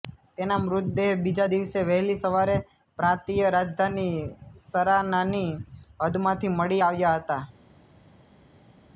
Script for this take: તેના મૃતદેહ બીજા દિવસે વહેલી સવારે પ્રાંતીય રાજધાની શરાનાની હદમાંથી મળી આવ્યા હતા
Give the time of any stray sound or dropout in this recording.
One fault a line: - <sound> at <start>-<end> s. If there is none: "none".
none